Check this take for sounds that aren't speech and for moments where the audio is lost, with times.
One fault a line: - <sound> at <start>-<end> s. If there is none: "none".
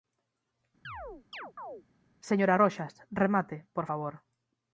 - chirp at 0.8-1.8 s